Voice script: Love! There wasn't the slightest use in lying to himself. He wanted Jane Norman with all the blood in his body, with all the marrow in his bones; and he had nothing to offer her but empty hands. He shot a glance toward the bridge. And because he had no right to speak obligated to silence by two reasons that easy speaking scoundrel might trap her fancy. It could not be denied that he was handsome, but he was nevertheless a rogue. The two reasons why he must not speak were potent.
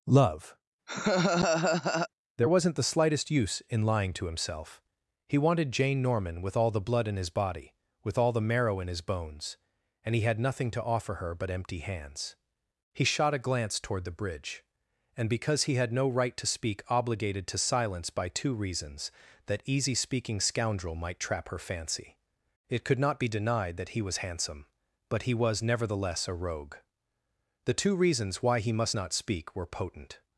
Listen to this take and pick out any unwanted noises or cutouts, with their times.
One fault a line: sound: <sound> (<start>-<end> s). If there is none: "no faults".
sound: laugh (0.9-2.1 s)